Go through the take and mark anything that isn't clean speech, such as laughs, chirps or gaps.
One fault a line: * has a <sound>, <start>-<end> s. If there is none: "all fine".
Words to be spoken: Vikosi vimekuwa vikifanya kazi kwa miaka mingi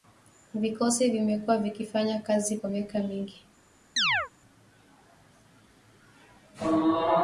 * has a chirp, 4.0-4.3 s